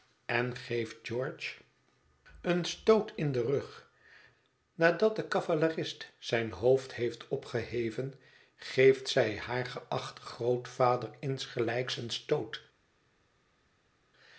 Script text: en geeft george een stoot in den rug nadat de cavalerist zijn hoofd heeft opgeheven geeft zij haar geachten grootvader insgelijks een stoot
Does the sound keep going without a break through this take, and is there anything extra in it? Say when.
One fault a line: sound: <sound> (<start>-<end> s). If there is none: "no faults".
no faults